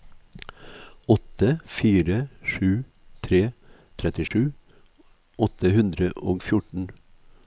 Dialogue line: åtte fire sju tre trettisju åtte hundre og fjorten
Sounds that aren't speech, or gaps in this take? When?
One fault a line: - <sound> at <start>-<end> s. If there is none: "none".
- dropout at 4.3-4.3 s